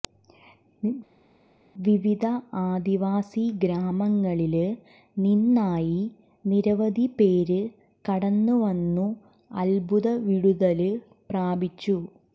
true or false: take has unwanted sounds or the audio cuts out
false